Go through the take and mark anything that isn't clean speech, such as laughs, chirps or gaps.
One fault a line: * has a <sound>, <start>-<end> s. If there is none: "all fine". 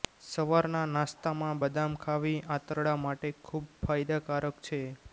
all fine